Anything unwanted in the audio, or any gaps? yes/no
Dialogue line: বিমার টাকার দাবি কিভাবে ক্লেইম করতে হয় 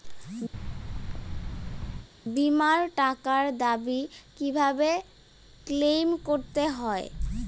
yes